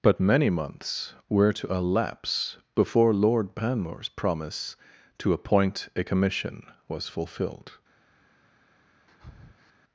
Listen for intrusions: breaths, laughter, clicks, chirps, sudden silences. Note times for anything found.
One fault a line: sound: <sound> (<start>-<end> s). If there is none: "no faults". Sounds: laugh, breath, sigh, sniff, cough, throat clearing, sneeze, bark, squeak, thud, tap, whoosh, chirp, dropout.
sound: breath (9.1-9.7 s)